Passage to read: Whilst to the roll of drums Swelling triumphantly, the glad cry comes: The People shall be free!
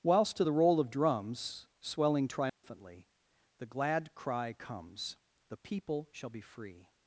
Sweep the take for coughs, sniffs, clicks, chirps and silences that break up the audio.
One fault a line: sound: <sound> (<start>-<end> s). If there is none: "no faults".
sound: dropout (2.5-2.6 s)